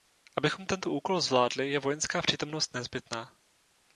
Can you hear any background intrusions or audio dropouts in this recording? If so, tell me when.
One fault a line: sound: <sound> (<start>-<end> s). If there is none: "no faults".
no faults